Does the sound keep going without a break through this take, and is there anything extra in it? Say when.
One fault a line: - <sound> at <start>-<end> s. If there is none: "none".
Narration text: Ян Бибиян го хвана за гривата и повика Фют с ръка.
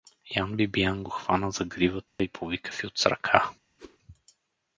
- dropout at 2.1-2.2 s
- whoosh at 3.8-4.0 s